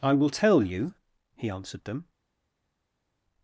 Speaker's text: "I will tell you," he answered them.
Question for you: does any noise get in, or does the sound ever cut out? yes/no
no